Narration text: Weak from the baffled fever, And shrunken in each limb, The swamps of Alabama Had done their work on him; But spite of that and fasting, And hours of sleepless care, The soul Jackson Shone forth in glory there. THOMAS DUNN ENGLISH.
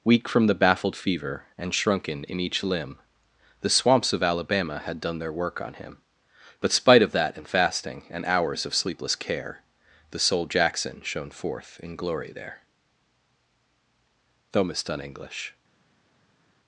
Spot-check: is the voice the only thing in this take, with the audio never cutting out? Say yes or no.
yes